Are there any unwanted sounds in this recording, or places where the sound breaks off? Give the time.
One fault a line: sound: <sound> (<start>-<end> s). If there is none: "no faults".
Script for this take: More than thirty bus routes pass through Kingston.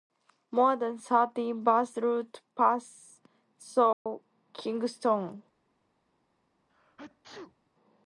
sound: dropout (3.9-4.1 s)
sound: sneeze (6.7-7.7 s)